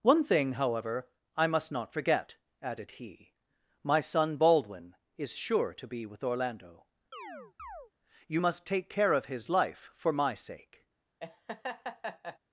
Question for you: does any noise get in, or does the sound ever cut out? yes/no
yes